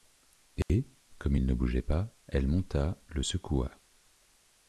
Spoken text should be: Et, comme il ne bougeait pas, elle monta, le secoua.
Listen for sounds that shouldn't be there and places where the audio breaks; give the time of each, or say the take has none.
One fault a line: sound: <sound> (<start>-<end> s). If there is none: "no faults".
sound: dropout (0.6-0.7 s)